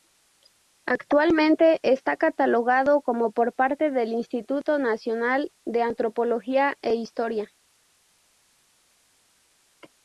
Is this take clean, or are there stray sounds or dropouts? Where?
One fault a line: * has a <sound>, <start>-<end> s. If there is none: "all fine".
all fine